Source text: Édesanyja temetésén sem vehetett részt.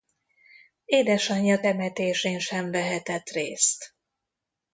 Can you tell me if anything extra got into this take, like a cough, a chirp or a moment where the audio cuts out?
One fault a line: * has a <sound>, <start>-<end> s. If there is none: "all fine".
all fine